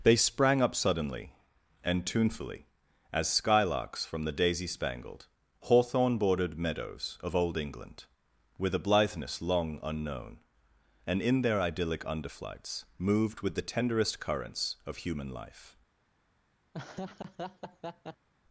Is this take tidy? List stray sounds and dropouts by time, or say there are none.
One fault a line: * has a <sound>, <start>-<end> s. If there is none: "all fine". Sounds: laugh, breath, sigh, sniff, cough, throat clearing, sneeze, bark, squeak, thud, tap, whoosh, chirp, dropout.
* has a laugh, 16.7-18.3 s